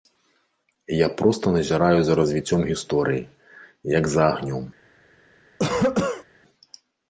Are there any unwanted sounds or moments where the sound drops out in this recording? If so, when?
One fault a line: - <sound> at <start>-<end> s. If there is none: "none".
- cough at 5.6-6.2 s